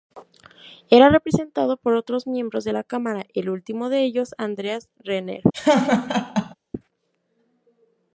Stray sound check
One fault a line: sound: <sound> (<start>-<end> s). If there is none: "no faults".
sound: laugh (5.5-6.5 s)